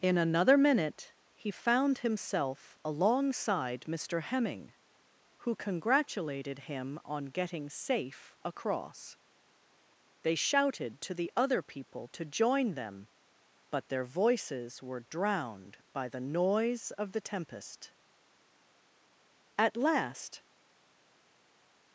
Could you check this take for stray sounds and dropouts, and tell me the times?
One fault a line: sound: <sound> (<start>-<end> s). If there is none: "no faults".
no faults